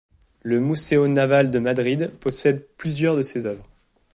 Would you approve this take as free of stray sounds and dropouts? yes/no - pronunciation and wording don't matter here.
yes